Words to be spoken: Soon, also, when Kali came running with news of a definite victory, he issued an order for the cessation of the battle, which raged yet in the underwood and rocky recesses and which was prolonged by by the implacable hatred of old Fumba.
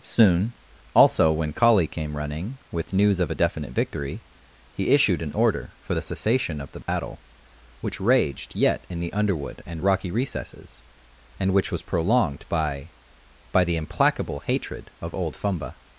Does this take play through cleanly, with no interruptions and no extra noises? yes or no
no